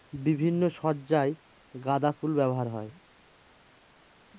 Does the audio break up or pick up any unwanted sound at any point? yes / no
no